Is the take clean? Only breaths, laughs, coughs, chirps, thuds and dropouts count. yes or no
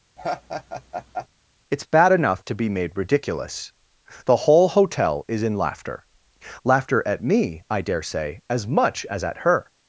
no